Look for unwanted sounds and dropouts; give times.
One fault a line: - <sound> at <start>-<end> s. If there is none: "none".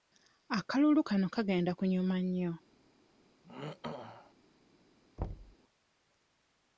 - throat clearing at 3.4-4.3 s
- thud at 5.2-5.6 s